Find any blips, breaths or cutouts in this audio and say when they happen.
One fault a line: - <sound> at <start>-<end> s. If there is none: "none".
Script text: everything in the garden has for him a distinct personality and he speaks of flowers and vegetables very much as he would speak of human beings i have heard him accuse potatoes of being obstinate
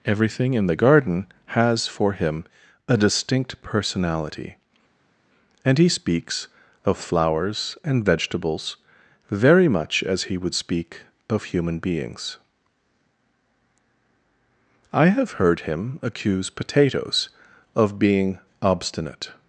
none